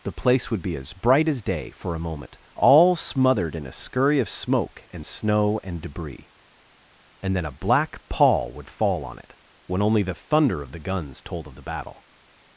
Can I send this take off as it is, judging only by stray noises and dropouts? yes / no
yes